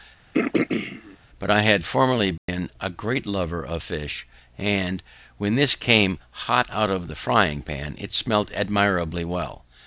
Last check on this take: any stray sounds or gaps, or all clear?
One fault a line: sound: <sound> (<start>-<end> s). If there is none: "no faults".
sound: throat clearing (0.3-1.2 s)
sound: dropout (2.4-2.5 s)